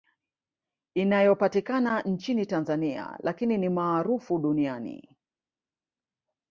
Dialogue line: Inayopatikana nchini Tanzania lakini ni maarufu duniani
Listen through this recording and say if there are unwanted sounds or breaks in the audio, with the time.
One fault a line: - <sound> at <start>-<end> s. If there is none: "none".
none